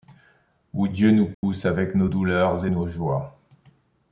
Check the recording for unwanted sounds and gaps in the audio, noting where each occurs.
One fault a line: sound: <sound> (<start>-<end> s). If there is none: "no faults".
sound: dropout (1.3-1.4 s)